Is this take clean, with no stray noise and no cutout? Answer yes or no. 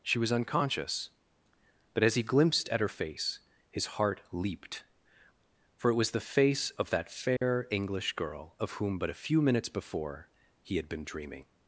no